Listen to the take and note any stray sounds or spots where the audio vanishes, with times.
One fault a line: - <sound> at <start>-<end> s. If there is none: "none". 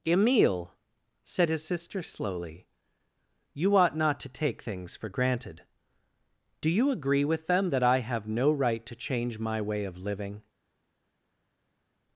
none